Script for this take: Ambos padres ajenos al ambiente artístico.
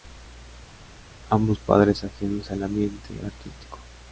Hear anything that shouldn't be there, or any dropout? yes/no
no